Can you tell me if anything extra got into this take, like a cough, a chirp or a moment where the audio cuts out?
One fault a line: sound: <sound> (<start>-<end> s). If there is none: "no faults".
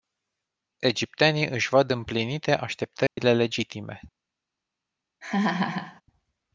sound: dropout (3.1-3.2 s)
sound: laugh (5.2-6.0 s)